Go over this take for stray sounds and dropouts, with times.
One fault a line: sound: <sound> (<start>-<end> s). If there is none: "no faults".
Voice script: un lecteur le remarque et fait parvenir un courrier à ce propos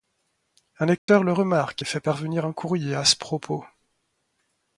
sound: dropout (1.0-1.1 s)